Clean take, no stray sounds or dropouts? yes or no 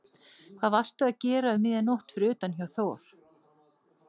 yes